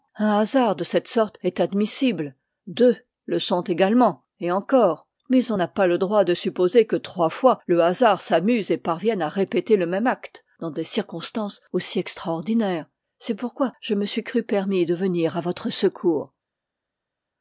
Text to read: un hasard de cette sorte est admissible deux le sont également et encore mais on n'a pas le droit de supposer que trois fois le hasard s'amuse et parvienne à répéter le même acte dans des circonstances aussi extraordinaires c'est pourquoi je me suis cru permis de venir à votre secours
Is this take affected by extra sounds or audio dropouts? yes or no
no